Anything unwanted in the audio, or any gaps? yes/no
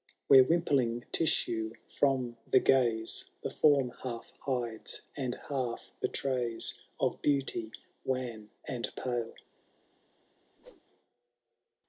yes